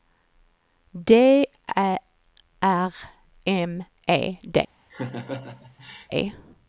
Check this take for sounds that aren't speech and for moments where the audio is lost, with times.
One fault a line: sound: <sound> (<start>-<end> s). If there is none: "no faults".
sound: laugh (4.9-6.1 s)